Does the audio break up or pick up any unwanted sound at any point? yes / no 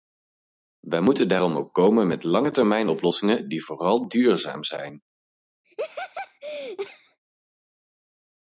yes